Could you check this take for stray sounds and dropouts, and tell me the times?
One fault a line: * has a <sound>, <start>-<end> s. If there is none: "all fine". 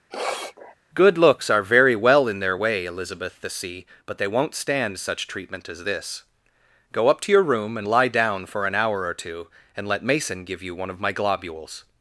* has a sniff, 0.1-0.8 s